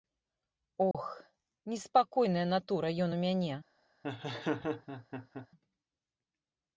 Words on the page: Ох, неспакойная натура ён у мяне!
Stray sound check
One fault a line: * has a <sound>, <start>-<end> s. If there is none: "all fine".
* has a dropout, 0.9-0.9 s
* has a laugh, 4.0-5.5 s